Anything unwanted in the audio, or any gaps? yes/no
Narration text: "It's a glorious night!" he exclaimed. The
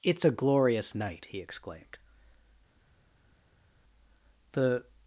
no